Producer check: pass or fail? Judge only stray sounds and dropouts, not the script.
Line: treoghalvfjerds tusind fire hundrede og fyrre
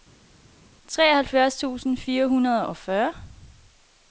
pass